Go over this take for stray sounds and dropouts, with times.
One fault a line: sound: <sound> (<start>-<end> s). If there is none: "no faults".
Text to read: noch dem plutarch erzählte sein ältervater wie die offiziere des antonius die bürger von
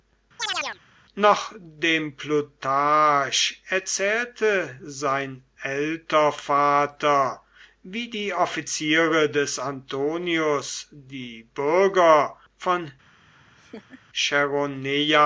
sound: chirp (0.4-0.8 s)
sound: laugh (13.3-14.0 s)